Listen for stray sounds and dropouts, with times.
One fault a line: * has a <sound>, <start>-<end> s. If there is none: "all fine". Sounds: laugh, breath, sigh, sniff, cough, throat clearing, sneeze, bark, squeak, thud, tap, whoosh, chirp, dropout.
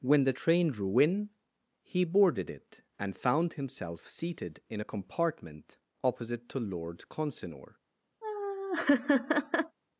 * has a laugh, 8.2-9.8 s